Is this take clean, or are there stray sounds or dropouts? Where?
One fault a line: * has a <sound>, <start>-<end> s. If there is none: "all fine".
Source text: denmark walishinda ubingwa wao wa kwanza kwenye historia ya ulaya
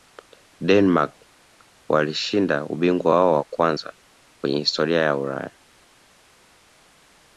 all fine